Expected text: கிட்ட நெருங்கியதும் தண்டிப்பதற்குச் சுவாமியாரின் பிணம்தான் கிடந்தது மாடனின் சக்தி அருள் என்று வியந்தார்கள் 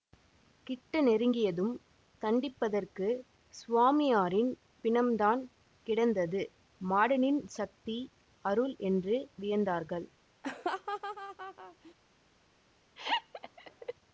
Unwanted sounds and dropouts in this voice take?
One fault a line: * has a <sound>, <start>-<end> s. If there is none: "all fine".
* has a laugh, 10.4-11.9 s
* has a laugh, 13.0-13.9 s